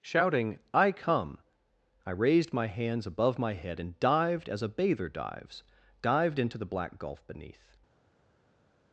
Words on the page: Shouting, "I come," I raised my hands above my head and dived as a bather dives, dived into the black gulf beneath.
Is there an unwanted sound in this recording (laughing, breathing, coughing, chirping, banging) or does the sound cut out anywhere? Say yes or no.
no